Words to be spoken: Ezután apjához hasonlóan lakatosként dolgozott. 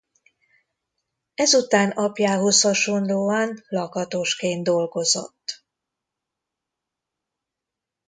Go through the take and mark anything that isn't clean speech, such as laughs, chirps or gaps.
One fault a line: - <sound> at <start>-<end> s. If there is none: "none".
none